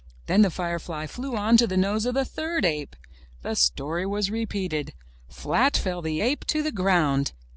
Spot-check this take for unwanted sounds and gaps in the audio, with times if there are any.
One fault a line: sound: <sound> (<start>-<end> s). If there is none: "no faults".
no faults